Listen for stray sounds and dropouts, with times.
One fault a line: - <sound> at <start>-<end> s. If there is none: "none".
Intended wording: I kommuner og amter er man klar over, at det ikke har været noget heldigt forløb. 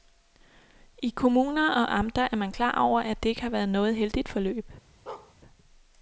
- bark at 5.1-5.3 s